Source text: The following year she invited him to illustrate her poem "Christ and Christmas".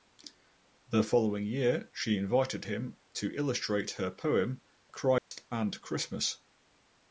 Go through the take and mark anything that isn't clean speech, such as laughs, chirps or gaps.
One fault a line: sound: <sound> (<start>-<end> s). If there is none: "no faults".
sound: dropout (5.2-5.3 s)